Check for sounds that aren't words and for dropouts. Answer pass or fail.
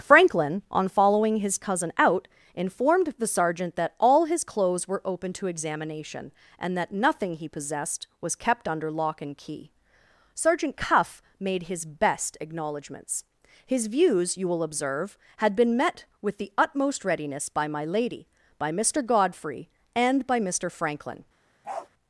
fail